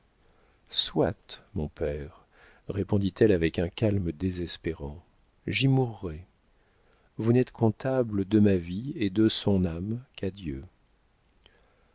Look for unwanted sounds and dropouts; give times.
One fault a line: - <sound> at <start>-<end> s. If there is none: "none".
none